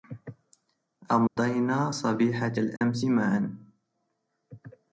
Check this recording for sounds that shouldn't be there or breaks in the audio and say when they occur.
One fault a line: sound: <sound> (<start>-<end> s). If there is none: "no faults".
sound: dropout (1.3-1.4 s)
sound: dropout (2.8-2.8 s)